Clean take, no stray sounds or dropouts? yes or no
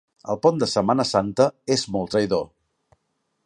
yes